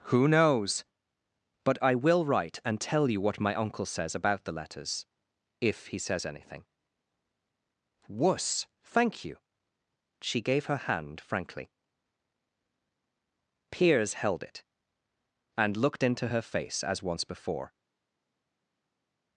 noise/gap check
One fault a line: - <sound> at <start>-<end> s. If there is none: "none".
none